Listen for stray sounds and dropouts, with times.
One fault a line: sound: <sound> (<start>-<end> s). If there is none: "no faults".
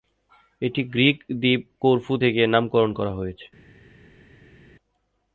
no faults